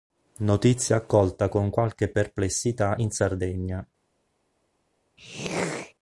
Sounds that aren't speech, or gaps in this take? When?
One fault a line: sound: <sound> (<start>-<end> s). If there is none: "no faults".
sound: throat clearing (5.2-5.9 s)